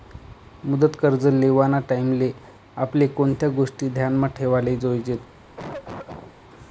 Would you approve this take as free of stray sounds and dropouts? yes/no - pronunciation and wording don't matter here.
no